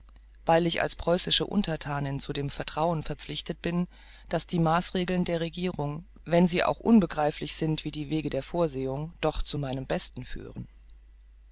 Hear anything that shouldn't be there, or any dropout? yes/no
no